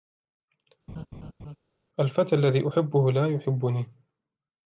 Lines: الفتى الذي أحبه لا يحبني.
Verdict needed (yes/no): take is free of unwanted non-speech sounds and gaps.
no